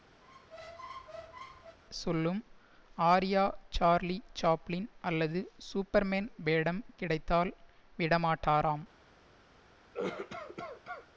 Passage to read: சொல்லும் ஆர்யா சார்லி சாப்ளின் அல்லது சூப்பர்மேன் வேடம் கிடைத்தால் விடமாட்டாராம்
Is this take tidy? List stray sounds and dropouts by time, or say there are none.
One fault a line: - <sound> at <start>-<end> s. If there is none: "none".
- squeak at 0.2-1.8 s
- cough at 9.9-11.1 s